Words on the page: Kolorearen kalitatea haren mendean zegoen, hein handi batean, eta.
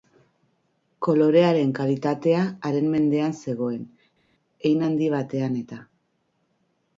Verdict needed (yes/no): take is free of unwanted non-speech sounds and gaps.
yes